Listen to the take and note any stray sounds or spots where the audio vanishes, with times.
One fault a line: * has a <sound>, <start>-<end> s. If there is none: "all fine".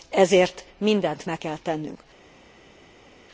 all fine